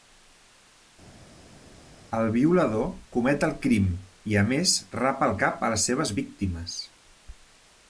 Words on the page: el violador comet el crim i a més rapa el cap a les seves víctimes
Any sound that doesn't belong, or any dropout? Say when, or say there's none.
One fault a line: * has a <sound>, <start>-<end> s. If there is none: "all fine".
all fine